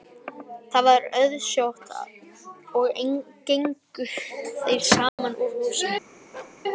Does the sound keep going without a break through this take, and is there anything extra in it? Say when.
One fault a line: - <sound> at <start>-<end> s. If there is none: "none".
- dropout at 5.1-5.2 s
- bark at 6.3-6.6 s